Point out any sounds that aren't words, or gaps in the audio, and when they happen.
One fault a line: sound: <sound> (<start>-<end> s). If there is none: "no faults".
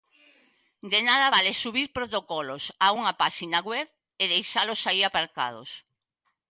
no faults